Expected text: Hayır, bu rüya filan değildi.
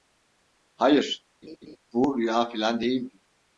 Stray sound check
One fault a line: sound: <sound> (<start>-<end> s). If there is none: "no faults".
sound: laugh (1.4-1.8 s)